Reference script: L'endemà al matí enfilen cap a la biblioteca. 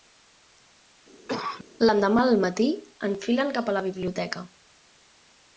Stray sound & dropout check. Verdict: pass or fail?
fail